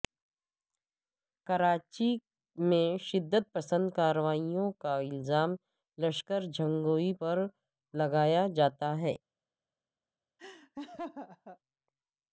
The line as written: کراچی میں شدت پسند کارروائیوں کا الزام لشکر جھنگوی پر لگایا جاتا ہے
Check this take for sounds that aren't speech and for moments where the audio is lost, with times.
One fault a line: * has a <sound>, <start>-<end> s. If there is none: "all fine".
* has a laugh, 10.4-11.6 s